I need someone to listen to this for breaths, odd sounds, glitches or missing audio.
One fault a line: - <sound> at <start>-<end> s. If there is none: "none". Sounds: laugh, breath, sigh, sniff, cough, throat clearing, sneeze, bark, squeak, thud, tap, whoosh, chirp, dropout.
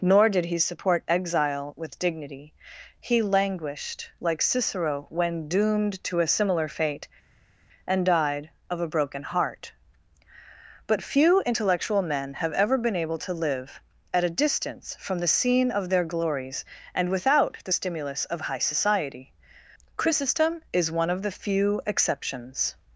none